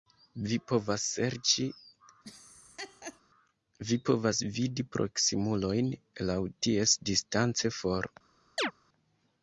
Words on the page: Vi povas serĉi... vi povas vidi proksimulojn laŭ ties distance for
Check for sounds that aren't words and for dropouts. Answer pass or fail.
fail